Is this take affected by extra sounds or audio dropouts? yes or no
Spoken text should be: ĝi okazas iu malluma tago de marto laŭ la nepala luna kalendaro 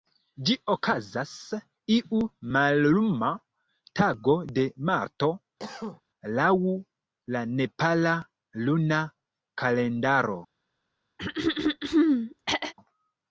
yes